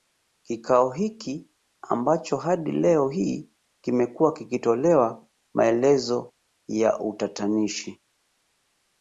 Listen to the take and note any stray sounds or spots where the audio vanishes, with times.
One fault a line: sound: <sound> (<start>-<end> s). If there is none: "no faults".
no faults